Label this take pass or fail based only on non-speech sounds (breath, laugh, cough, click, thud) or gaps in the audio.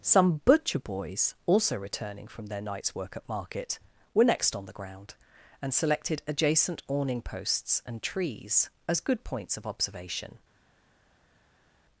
pass